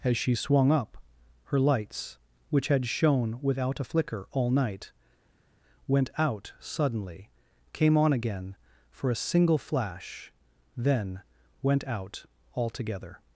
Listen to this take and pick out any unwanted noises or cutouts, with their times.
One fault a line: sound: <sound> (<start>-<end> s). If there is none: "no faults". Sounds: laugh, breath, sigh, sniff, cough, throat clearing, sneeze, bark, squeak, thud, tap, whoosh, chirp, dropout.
no faults